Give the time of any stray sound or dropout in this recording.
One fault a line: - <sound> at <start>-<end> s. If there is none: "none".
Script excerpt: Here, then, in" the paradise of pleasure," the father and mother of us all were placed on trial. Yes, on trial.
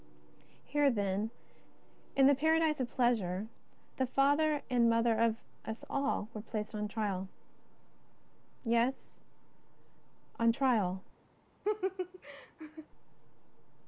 - laugh at 11.6-12.9 s